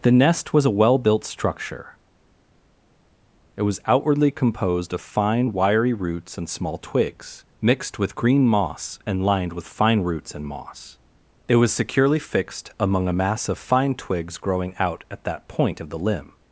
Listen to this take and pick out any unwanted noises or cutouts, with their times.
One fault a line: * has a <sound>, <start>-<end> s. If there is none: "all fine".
all fine